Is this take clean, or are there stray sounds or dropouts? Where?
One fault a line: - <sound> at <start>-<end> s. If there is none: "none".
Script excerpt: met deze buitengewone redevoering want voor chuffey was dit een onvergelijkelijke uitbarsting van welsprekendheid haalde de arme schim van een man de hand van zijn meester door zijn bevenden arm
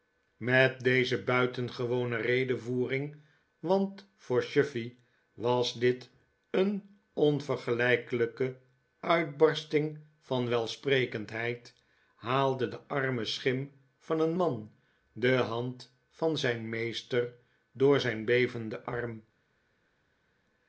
none